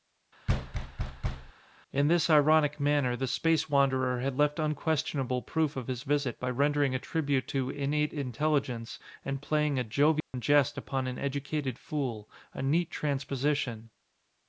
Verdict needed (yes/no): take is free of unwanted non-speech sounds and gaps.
no